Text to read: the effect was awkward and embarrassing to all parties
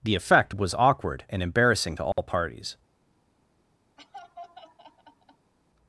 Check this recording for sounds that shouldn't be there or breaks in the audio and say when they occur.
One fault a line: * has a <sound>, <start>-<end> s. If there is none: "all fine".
* has a dropout, 2.1-2.2 s
* has a laugh, 4.0-5.5 s